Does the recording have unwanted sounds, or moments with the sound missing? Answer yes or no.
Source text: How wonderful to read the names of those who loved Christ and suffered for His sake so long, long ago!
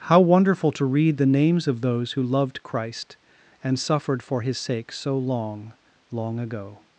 no